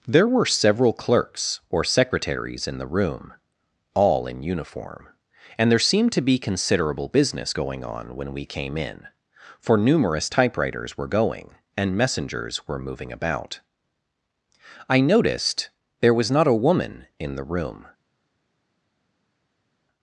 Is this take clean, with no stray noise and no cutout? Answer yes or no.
yes